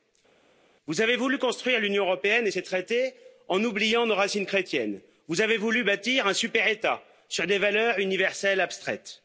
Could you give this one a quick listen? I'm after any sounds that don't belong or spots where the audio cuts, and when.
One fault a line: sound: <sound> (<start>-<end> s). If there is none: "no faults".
no faults